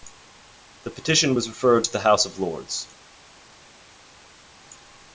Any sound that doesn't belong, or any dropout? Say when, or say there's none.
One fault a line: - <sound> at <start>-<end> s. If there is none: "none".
none